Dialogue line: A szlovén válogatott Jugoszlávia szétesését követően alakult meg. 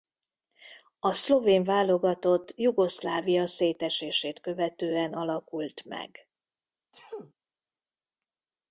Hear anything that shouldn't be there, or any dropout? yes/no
yes